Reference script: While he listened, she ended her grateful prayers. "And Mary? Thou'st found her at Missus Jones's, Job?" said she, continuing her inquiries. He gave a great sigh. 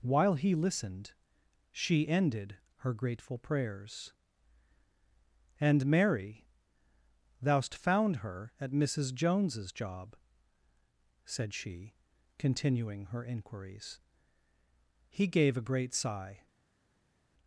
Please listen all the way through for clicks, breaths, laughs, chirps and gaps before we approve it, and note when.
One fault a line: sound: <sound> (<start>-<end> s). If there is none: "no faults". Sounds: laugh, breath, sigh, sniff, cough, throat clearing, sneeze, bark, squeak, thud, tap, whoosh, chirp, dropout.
no faults